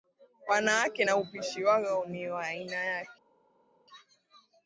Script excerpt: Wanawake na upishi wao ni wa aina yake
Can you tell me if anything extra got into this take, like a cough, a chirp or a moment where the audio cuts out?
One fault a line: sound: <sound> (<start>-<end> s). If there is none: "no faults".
no faults